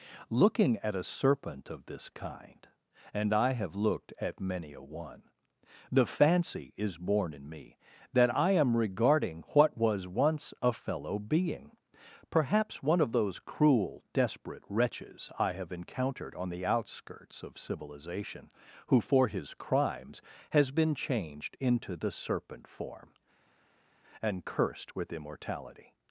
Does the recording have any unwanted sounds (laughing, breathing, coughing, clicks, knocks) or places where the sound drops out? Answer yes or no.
no